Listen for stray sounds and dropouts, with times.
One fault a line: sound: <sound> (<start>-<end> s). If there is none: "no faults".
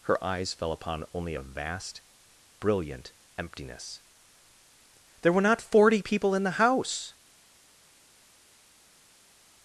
no faults